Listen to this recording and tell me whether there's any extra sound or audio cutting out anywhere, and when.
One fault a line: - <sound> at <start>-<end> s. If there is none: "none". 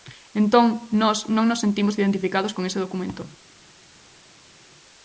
none